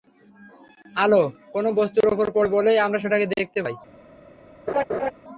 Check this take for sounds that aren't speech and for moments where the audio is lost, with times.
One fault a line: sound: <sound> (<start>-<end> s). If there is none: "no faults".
sound: laugh (4.7-5.1 s)